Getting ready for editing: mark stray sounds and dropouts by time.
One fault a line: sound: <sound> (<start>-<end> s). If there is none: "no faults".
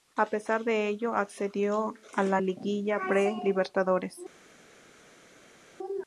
no faults